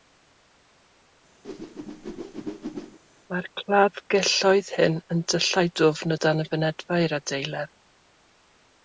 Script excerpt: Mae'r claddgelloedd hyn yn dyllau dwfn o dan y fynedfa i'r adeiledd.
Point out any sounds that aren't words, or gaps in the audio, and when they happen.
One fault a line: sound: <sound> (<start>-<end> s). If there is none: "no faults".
sound: whoosh (1.4-3.0 s)